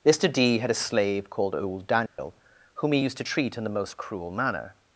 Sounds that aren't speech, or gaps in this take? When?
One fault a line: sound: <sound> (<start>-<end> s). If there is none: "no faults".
sound: dropout (2.1-2.2 s)